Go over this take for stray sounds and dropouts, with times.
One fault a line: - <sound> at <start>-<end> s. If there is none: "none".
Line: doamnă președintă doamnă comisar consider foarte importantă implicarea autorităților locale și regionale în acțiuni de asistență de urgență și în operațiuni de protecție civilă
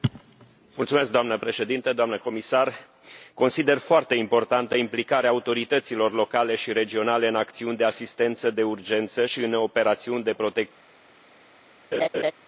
- laugh at 11.9-12.3 s